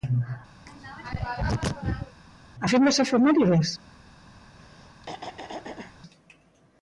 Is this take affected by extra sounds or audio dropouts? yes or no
yes